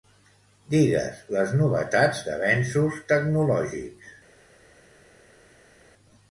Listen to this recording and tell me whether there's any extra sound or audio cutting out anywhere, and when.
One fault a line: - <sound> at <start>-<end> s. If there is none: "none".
none